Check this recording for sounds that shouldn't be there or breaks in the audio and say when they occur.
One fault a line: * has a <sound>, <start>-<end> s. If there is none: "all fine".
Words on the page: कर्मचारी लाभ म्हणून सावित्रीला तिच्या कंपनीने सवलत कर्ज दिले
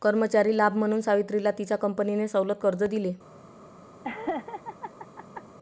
* has a laugh, 4.0-5.4 s